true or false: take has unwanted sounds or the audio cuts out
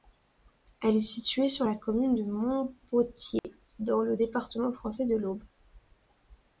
true